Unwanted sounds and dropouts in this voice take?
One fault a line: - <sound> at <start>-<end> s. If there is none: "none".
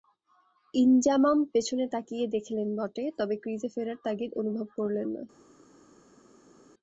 none